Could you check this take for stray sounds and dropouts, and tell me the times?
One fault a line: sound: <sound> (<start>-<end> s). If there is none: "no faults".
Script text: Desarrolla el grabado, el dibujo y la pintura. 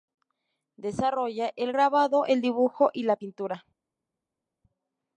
no faults